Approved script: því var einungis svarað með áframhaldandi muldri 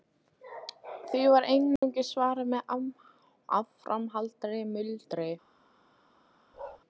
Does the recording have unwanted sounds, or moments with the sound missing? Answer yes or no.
yes